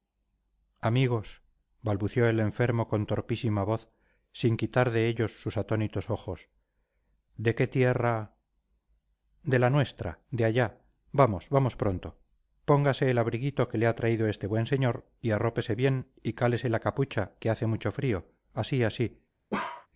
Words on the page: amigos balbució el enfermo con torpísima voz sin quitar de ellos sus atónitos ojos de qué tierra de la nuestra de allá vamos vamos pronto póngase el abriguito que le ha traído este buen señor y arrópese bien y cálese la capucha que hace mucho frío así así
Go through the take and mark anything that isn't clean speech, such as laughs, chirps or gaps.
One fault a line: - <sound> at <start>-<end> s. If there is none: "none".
- bark at 19.5-19.9 s